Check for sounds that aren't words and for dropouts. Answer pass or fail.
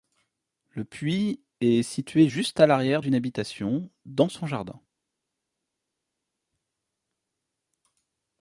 pass